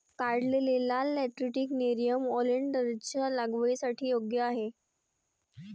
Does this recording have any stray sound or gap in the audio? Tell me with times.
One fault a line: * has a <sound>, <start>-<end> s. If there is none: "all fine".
all fine